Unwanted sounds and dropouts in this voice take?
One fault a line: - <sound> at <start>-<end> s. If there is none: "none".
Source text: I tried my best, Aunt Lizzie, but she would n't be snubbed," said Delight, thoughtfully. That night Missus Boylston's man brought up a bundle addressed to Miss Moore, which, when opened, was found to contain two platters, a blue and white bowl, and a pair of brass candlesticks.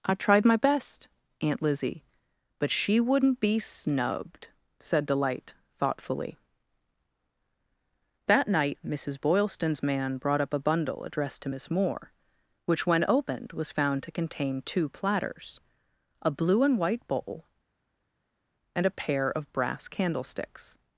none